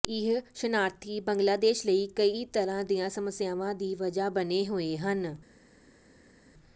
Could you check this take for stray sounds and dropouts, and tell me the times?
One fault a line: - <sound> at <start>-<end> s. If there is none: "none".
none